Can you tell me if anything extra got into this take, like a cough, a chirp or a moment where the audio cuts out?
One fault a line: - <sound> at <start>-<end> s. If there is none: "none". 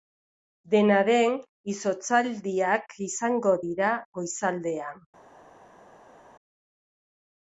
none